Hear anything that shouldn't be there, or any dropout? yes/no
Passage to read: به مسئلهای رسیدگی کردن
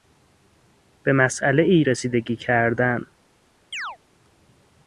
yes